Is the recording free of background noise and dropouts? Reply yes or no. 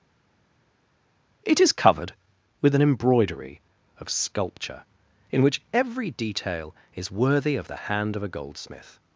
yes